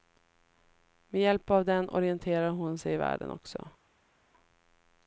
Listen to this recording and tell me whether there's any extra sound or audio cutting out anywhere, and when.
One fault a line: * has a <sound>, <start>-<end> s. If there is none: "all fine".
all fine